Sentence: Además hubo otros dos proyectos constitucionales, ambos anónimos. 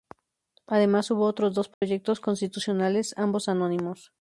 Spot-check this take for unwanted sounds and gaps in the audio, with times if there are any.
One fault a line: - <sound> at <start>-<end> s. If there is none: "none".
- dropout at 1.7-1.8 s